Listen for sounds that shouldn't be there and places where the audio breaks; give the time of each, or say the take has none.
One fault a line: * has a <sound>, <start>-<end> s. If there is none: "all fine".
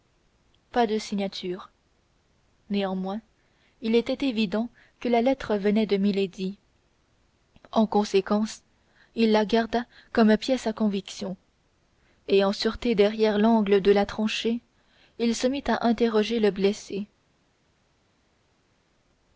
all fine